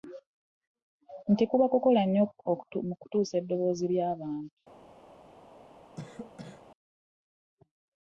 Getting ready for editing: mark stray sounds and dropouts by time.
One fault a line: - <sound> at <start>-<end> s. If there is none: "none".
- cough at 6.0-6.7 s